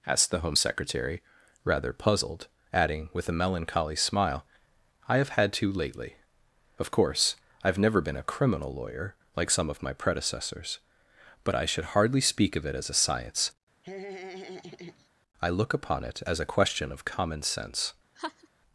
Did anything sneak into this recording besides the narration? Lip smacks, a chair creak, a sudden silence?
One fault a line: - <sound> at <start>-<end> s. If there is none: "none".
- laugh at 13.8-15.1 s
- laugh at 18.2-18.5 s